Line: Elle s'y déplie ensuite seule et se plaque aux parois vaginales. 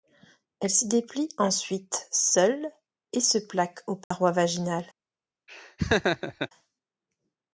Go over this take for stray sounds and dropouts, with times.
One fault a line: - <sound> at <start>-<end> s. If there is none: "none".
- dropout at 4.0-4.1 s
- laugh at 5.5-6.5 s